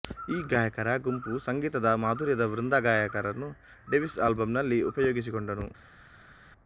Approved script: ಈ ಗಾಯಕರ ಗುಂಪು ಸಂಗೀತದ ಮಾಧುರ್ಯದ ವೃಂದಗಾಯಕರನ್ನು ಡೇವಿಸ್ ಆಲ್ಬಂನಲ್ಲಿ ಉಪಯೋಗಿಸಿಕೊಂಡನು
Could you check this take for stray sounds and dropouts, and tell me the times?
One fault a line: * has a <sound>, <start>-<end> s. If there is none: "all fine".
all fine